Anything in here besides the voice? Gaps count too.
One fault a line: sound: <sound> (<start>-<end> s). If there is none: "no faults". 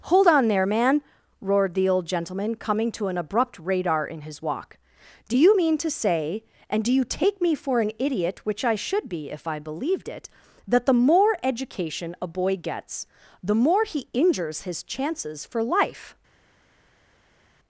no faults